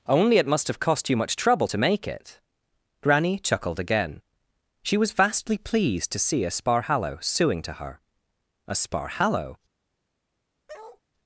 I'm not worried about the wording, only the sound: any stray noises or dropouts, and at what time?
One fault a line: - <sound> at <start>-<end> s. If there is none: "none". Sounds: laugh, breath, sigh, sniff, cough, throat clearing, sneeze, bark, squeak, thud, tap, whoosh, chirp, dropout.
- bark at 10.7-11.0 s